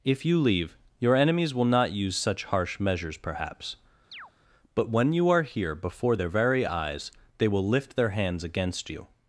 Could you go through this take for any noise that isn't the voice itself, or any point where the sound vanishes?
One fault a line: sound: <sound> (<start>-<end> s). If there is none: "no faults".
sound: chirp (4.1-4.3 s)